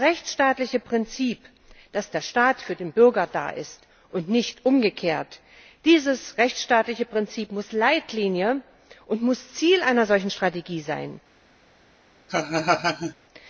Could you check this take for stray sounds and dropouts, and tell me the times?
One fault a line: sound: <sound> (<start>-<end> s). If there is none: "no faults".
sound: laugh (12.3-13.1 s)